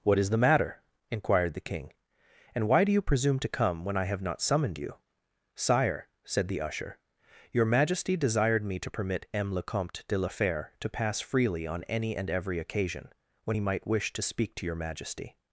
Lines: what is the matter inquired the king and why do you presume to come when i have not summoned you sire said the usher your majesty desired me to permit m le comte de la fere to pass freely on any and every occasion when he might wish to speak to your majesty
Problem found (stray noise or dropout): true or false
false